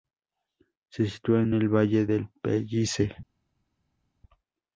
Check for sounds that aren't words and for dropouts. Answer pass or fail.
pass